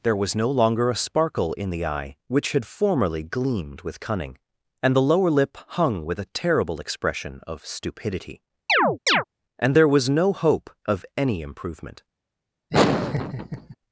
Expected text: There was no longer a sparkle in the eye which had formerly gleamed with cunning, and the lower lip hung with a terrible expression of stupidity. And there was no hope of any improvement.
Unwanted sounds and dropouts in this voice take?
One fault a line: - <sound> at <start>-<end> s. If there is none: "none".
- chirp at 8.7-9.2 s
- laugh at 12.7-13.8 s